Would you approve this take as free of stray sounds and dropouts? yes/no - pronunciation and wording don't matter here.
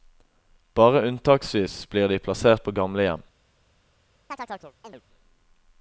no